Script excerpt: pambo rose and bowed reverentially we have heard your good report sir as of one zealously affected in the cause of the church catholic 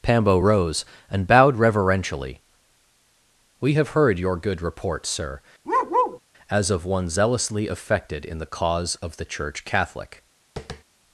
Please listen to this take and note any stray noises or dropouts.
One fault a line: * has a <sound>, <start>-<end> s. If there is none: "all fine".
* has a bark, 5.6-6.2 s
* has a tap, 10.6-10.8 s